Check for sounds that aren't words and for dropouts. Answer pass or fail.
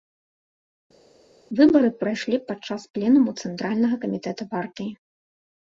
pass